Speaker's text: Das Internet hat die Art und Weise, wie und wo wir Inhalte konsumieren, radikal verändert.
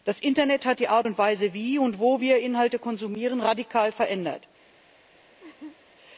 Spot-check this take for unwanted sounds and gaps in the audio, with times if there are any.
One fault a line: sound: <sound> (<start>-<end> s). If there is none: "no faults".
sound: laugh (5.4-5.8 s)